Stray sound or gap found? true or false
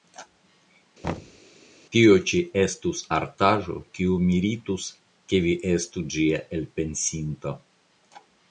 true